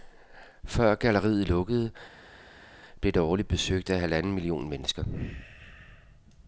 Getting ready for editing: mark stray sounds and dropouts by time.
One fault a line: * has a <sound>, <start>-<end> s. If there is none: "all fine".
all fine